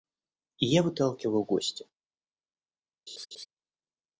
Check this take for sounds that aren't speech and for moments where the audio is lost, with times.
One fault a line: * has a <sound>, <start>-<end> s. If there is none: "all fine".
* has a laugh, 3.1-3.5 s